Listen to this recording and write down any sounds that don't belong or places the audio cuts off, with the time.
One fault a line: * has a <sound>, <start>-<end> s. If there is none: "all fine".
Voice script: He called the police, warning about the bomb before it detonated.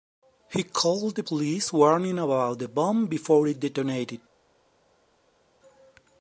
all fine